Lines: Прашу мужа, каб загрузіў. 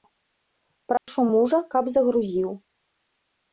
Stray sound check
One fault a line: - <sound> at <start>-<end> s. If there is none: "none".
- dropout at 1.0-1.1 s